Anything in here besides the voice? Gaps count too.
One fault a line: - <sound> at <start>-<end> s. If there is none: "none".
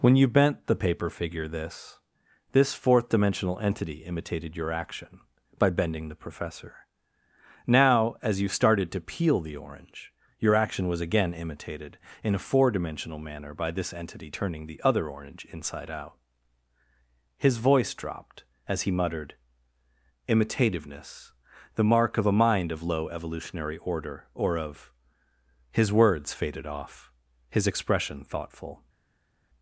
none